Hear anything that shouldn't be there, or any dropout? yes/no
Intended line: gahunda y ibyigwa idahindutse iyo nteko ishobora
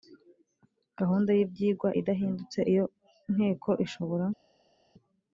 no